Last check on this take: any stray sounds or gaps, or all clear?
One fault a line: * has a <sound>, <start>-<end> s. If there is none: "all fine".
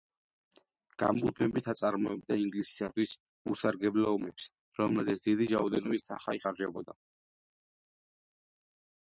all fine